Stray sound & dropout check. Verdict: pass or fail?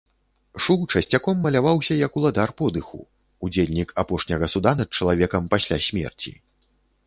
pass